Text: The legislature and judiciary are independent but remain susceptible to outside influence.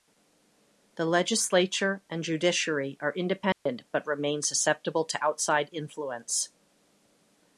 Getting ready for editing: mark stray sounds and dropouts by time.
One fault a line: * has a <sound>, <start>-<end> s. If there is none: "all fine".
* has a dropout, 3.5-3.7 s